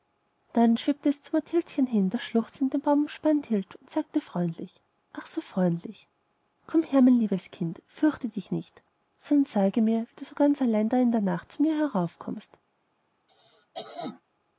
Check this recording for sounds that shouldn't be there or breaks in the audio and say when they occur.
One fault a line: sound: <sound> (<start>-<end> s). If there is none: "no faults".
sound: cough (13.3-14.2 s)